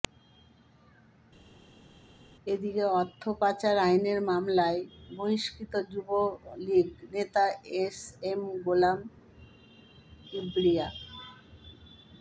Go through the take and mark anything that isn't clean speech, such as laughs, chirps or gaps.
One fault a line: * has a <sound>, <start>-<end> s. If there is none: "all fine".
all fine